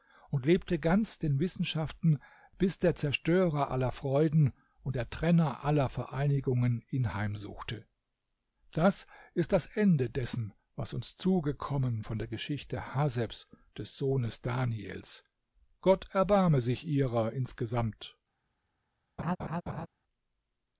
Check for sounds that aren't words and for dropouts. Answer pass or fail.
fail